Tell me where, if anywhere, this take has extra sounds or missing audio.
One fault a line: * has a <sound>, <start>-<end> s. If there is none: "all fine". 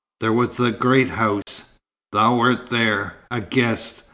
* has a dropout, 1.4-1.5 s